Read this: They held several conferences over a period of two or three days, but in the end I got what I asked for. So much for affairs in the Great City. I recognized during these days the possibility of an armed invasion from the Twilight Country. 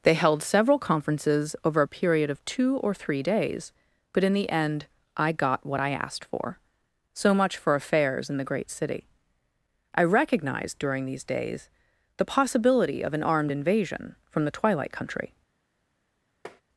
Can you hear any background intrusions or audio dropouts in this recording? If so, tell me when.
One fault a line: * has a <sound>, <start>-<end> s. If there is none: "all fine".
* has a tap, 16.4-16.6 s